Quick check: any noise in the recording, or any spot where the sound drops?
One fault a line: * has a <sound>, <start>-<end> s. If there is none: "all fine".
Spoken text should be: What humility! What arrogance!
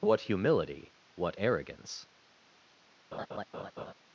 * has a laugh, 3.1-3.9 s